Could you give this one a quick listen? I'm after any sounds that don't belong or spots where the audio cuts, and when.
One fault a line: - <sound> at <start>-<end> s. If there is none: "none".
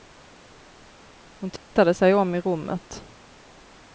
- dropout at 1.6-1.7 s